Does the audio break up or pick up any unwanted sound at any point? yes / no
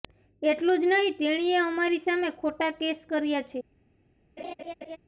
yes